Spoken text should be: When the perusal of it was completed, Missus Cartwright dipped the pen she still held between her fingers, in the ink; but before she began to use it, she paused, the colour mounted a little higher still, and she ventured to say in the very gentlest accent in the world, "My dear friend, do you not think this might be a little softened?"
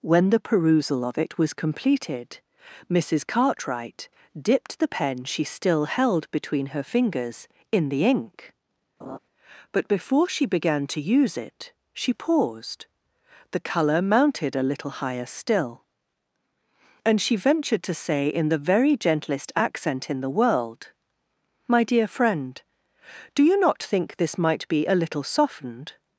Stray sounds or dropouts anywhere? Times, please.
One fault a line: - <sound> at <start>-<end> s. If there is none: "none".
- laugh at 9.0-9.2 s